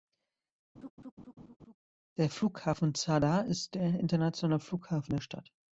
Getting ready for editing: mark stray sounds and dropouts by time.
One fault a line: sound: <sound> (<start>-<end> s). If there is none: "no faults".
sound: laugh (0.8-1.8 s)